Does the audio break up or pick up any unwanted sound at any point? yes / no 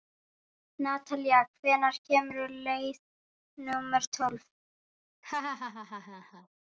yes